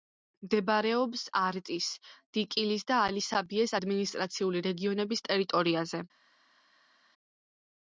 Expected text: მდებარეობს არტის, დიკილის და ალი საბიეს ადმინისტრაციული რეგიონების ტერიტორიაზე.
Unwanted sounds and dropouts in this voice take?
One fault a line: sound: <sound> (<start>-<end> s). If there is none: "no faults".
no faults